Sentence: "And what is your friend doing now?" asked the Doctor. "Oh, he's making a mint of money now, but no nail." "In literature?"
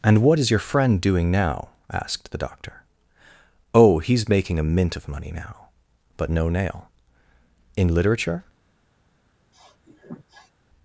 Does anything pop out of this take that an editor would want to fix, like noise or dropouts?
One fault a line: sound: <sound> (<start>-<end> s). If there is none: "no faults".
sound: sniff (9.5-10.5 s)